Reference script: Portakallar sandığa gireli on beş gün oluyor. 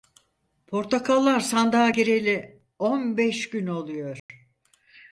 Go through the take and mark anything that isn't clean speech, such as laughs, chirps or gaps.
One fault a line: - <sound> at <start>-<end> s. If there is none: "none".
- dropout at 4.2-4.3 s